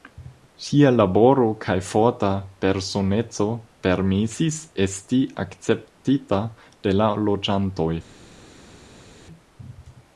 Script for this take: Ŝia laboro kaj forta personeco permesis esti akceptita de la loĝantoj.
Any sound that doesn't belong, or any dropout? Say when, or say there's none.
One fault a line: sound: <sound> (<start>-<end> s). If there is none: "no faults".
no faults